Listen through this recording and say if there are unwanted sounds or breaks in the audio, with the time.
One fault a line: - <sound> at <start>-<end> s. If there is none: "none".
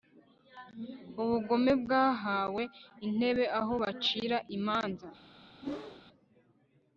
- whoosh at 5.6-6.0 s